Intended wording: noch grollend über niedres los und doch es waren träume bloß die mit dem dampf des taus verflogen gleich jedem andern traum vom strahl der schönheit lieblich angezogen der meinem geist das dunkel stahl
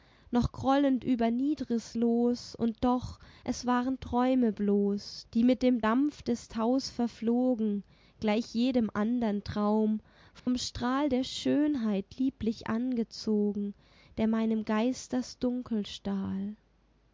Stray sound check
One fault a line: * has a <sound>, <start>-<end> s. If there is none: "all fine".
* has a dropout, 10.4-10.5 s